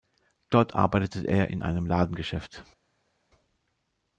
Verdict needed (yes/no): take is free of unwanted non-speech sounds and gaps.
yes